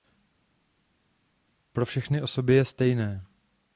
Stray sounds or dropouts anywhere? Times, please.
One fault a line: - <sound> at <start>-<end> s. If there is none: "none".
none